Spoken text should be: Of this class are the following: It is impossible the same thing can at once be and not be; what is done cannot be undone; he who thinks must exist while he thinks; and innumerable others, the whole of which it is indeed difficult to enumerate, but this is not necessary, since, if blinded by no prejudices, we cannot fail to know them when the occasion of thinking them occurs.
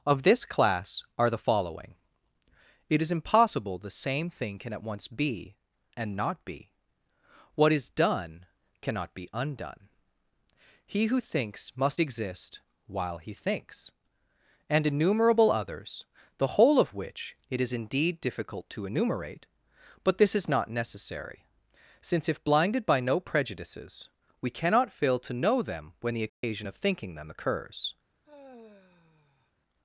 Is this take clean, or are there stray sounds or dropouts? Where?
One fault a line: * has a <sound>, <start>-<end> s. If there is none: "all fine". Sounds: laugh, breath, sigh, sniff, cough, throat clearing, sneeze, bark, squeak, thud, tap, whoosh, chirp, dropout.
* has a dropout, 26.3-26.4 s
* has a sigh, 28.2-29.5 s